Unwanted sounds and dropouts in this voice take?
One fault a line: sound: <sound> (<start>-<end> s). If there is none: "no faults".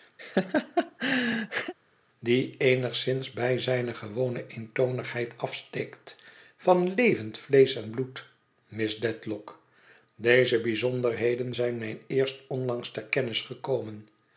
sound: laugh (0.2-1.7 s)